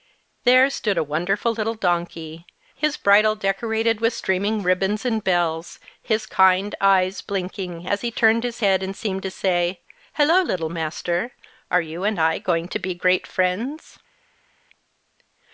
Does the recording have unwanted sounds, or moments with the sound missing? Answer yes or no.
no